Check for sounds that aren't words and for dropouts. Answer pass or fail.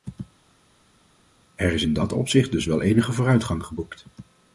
pass